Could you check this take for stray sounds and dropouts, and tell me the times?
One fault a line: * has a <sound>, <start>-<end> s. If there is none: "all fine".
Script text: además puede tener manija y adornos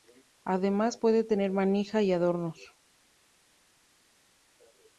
all fine